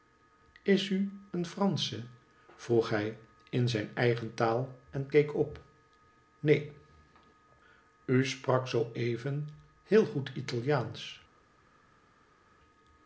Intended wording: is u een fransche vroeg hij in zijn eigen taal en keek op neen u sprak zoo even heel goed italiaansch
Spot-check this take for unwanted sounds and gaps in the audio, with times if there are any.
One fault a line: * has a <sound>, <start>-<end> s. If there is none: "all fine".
all fine